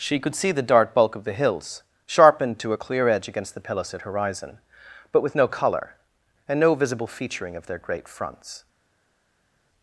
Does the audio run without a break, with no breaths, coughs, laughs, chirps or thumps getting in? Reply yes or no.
yes